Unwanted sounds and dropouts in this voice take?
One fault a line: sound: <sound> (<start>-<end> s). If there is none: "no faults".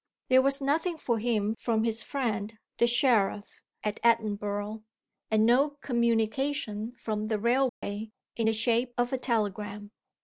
sound: dropout (7.7-7.8 s)